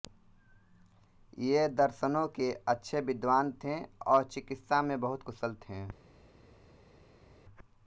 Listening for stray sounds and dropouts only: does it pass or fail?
pass